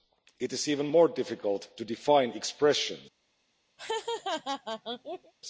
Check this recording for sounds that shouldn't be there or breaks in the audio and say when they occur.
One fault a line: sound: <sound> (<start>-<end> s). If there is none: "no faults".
sound: laugh (3.8-5.3 s)